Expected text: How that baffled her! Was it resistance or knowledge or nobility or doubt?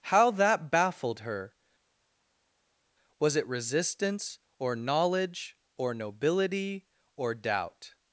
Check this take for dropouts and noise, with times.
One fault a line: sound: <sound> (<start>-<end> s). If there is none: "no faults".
no faults